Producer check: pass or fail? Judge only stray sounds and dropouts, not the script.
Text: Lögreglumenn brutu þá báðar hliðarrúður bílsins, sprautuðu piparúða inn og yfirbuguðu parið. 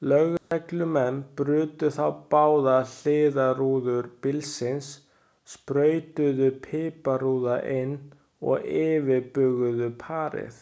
fail